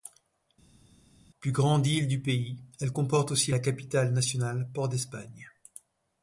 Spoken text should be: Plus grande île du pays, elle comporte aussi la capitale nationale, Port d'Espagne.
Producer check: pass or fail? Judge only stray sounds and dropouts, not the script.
pass